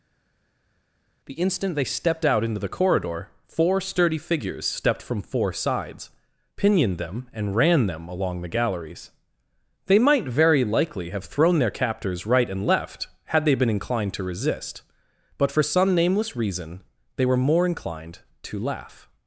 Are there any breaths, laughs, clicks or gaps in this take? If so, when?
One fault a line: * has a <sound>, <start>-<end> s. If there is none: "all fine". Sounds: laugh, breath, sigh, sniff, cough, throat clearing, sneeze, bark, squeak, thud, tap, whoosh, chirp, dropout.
all fine